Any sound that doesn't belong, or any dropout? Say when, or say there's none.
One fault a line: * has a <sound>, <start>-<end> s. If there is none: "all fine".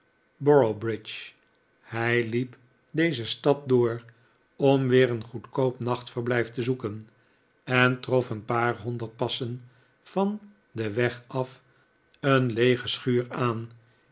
all fine